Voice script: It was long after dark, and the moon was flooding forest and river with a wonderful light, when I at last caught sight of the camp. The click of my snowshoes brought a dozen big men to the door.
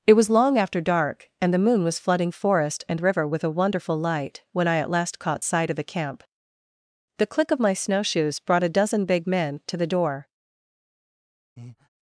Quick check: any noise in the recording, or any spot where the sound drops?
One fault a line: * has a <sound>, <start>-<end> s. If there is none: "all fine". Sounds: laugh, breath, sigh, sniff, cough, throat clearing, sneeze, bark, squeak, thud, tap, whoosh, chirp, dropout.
* has a breath, 11.6-11.9 s